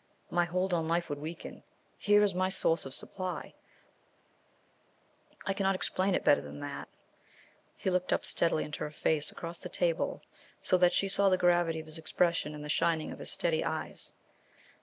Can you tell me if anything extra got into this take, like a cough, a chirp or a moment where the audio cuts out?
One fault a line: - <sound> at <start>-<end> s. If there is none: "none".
none